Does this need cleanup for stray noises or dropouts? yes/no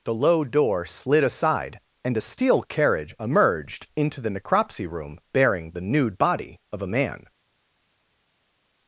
no